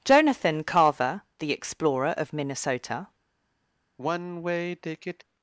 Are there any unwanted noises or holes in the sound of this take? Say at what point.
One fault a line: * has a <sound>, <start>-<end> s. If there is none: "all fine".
* has a sigh, 4.0-5.2 s